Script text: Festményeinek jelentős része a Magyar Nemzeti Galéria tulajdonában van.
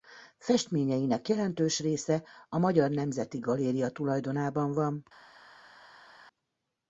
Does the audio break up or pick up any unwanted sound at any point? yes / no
no